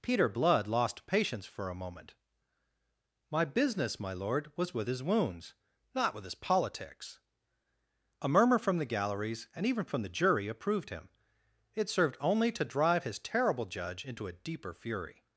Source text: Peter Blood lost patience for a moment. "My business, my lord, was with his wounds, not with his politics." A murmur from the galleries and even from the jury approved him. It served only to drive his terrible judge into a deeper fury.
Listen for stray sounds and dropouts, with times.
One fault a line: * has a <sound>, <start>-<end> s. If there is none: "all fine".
all fine